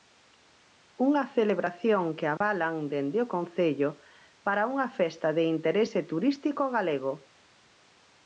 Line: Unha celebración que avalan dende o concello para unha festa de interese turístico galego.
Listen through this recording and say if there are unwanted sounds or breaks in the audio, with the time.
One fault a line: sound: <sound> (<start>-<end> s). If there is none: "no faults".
sound: dropout (2.4-2.4 s)